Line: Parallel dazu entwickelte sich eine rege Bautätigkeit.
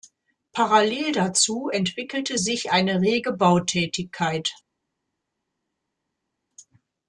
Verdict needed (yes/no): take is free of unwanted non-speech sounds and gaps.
yes